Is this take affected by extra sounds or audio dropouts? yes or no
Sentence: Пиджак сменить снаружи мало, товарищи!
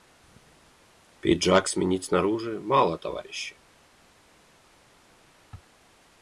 no